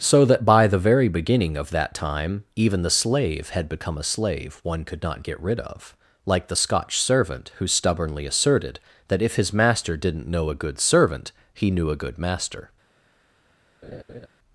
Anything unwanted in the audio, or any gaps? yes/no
yes